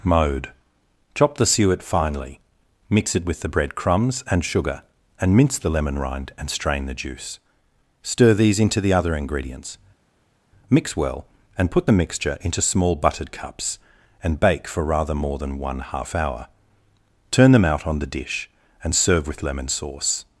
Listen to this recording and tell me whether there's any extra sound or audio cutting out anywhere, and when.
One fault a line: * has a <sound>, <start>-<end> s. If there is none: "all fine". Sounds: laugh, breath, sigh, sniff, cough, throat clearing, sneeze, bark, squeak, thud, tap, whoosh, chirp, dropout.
all fine